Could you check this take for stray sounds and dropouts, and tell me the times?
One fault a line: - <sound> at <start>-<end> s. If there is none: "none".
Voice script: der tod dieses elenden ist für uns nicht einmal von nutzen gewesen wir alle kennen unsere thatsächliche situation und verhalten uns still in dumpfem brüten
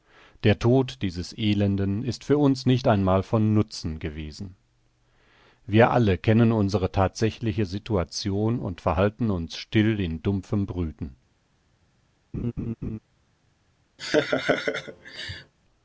- laugh at 12.3-13.0 s
- laugh at 14.0-15.5 s